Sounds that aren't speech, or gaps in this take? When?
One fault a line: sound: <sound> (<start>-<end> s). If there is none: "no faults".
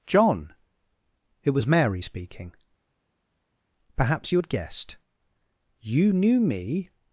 no faults